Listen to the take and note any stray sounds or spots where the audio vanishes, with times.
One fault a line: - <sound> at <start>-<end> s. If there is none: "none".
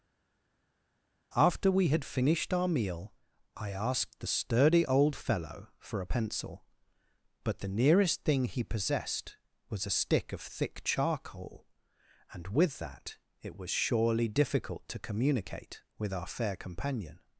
none